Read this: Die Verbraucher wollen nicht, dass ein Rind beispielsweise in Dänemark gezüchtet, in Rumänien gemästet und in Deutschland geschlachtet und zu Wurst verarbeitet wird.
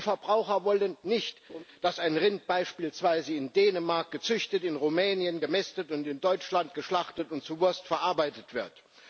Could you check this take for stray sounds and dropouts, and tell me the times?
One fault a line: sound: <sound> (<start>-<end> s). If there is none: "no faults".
sound: laugh (1.5-1.6 s)